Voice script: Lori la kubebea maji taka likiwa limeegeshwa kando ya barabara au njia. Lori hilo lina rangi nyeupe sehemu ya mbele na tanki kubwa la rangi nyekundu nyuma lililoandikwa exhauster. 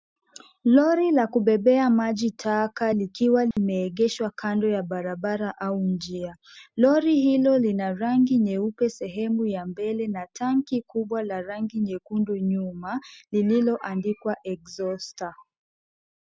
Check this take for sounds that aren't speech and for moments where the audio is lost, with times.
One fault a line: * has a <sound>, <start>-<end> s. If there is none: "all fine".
* has a dropout, 3.5-3.6 s